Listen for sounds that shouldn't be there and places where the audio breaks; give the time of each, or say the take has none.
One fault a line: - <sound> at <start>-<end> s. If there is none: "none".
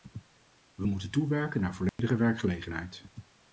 - dropout at 1.9-2.0 s